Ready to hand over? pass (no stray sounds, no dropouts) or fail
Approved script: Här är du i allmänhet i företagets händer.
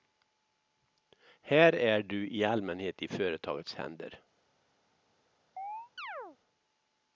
fail